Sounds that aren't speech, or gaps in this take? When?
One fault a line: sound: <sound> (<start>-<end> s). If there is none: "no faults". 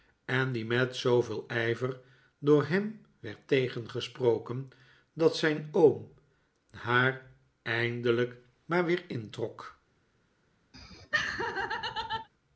sound: laugh (10.7-12.3 s)